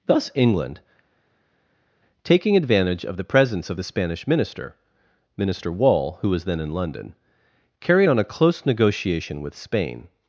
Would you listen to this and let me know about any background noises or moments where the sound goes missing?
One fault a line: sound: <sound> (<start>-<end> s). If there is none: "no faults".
no faults